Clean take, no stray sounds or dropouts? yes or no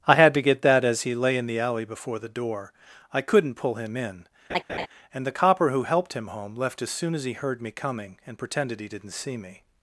no